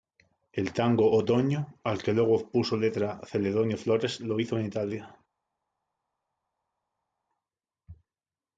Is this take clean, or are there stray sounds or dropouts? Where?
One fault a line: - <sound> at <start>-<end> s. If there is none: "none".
none